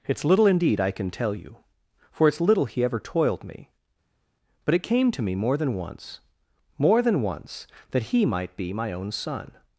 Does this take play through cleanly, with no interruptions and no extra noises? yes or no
yes